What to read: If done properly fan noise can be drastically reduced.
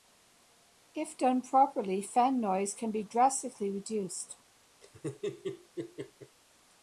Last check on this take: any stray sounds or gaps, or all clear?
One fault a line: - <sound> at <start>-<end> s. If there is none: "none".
- laugh at 4.8-6.4 s